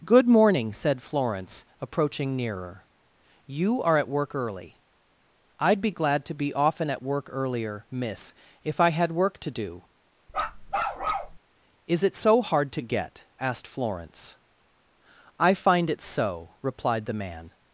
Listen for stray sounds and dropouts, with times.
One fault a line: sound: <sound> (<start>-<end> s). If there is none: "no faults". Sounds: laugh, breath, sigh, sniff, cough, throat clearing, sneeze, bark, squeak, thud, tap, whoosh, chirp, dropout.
sound: bark (10.3-11.4 s)